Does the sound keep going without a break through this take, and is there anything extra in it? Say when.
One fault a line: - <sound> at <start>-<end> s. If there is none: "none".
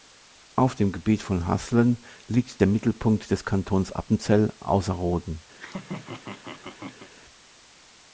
- laugh at 5.5-7.1 s